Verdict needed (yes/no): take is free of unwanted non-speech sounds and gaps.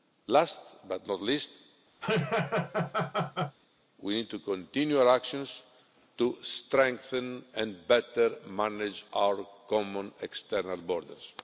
no